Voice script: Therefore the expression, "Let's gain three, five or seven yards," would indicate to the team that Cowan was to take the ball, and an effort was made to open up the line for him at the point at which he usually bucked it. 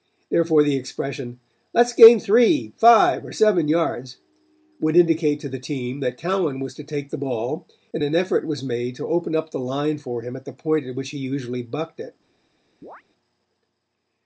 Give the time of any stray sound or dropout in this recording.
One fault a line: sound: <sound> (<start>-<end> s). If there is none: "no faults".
sound: chirp (12.8-13.0 s)